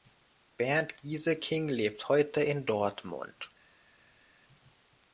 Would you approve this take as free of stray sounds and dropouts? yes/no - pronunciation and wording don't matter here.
yes